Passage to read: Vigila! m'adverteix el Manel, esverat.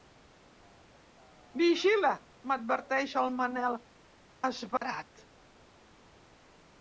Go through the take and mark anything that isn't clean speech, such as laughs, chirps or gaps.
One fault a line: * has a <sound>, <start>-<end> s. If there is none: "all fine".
* has a dropout, 4.8-4.8 s